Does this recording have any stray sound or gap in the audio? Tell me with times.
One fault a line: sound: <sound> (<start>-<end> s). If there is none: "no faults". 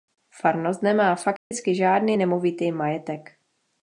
sound: dropout (1.4-1.5 s)